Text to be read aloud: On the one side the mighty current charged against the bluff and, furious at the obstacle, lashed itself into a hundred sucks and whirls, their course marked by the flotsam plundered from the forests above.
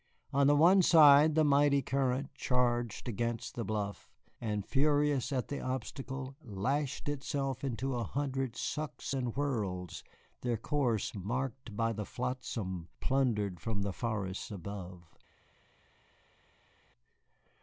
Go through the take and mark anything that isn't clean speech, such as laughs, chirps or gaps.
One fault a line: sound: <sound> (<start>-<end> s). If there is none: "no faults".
no faults